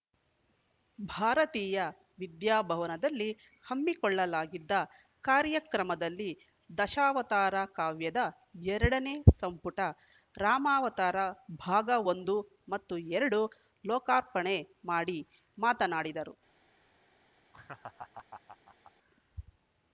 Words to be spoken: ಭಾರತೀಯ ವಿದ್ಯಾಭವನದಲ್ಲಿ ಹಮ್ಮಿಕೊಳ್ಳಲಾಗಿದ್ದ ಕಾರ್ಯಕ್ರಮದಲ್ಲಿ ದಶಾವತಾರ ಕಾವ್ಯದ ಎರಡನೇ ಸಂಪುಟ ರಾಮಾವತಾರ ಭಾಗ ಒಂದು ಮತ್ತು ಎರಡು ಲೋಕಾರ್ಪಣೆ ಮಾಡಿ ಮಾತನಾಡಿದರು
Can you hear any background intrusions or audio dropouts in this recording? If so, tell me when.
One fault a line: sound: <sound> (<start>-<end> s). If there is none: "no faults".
sound: laugh (17.5-18.9 s)